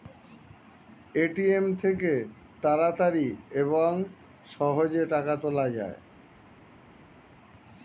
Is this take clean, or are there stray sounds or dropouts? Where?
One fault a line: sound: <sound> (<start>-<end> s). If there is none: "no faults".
no faults